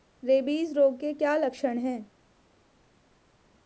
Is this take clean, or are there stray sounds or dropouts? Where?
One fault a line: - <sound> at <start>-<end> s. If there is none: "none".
none